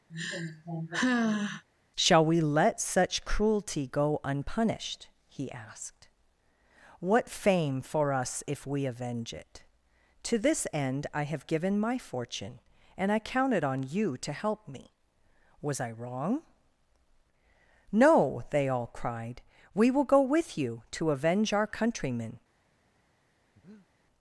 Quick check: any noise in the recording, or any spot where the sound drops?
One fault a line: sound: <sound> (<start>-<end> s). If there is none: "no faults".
sound: sigh (0.1-1.6 s)
sound: breath (23.5-23.9 s)